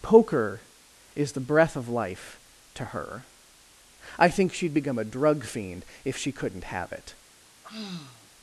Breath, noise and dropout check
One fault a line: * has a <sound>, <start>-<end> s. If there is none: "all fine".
* has a sigh, 7.6-8.3 s